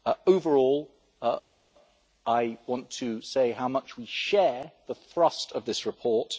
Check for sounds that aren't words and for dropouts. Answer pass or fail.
pass